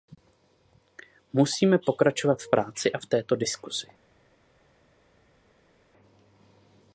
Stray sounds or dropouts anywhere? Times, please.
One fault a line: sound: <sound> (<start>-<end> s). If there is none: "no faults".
no faults